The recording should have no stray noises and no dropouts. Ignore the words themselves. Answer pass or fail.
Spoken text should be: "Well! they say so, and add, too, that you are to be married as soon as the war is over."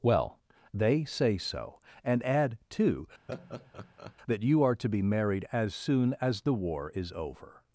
fail